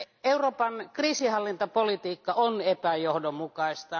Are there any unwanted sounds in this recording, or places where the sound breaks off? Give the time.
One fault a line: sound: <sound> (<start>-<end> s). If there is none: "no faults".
no faults